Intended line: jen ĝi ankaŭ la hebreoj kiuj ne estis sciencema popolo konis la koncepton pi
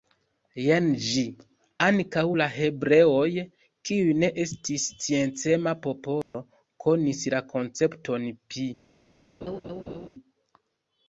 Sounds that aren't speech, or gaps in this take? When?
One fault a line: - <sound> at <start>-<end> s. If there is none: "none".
- dropout at 6.2-6.3 s
- laugh at 9.4-10.1 s